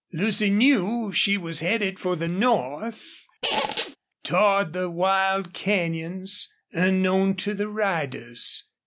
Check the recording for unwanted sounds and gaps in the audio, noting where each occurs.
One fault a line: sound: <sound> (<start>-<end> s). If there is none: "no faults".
sound: squeak (3.4-4.0 s)